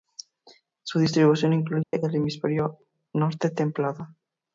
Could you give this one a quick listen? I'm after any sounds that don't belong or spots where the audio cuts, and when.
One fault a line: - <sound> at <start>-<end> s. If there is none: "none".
- dropout at 1.8-1.9 s